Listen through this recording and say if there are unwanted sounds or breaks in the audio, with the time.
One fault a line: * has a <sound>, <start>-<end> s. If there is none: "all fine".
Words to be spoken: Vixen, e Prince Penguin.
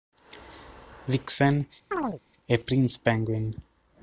* has a chirp, 1.9-2.2 s